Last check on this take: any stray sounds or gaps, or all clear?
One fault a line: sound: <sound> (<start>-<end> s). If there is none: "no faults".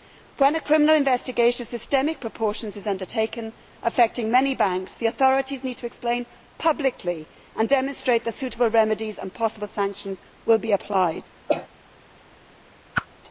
sound: cough (11.5-11.7 s)
sound: whoosh (12.9-13.1 s)